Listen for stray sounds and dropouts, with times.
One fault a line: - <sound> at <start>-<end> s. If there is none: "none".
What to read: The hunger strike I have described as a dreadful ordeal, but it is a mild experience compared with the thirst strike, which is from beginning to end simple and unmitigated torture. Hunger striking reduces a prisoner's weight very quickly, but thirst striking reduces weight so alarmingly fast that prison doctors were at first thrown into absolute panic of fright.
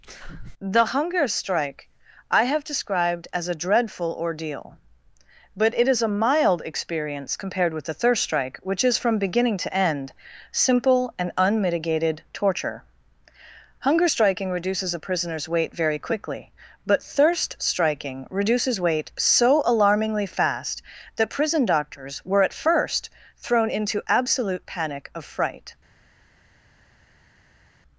none